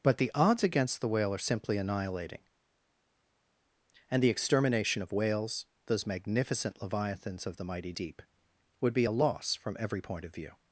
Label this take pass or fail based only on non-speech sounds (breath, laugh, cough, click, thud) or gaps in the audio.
pass